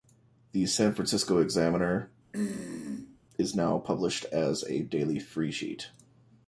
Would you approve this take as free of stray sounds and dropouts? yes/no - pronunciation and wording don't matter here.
no